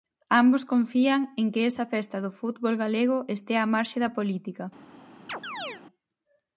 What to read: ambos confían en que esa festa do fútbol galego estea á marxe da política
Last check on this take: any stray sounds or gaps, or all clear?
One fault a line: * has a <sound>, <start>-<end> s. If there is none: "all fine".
* has a chirp, 5.3-5.8 s